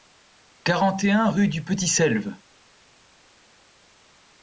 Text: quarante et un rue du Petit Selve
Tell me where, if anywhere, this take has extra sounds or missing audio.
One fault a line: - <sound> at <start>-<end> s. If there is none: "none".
none